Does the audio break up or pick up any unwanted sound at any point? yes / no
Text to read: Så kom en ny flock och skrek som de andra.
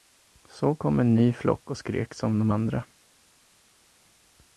no